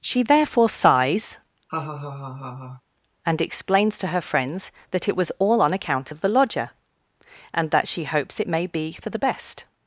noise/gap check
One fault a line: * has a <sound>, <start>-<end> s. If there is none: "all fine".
* has a laugh, 1.7-2.8 s